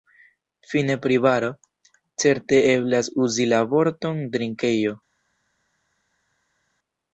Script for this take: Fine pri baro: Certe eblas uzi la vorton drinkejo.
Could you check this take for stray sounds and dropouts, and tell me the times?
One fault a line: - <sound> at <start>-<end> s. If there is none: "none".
none